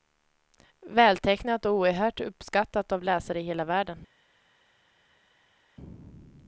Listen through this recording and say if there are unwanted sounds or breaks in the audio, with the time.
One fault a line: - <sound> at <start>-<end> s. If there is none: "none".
none